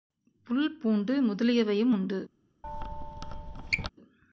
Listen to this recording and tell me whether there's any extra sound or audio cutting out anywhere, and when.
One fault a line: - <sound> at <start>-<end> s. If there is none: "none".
- squeak at 2.6-3.9 s